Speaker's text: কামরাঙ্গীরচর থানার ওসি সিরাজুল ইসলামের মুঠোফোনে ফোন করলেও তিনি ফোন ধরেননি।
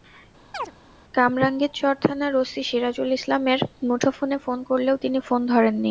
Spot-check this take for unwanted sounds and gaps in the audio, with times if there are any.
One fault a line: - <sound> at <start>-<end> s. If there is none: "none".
- chirp at 0.5-0.7 s